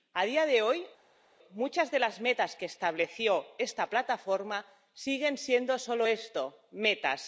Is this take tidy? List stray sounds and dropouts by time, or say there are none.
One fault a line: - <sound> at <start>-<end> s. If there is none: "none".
none